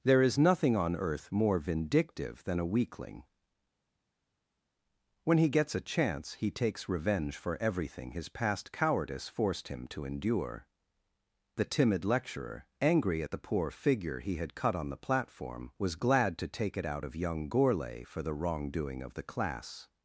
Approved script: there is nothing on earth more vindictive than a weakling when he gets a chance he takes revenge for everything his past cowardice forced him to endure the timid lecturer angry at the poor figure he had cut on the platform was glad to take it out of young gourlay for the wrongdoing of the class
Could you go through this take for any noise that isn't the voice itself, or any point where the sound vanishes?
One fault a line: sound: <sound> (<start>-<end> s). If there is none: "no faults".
no faults